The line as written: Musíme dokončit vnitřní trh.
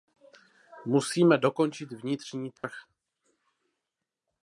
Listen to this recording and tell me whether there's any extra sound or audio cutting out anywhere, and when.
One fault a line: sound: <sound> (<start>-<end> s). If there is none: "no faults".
sound: dropout (2.6-2.6 s)